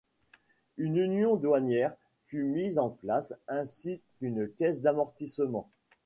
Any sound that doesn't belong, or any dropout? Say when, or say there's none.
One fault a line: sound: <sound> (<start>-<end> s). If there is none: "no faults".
no faults